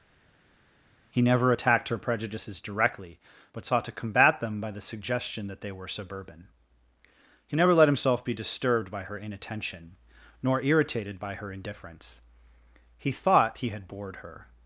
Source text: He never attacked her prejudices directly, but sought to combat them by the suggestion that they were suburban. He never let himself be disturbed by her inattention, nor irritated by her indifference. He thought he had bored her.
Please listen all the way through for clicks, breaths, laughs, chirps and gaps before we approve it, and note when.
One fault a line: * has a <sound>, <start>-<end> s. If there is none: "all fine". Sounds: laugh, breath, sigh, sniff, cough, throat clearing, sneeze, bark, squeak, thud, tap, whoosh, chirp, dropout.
all fine